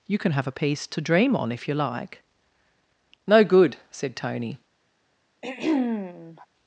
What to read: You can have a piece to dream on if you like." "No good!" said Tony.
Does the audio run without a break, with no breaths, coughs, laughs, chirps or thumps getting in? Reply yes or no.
no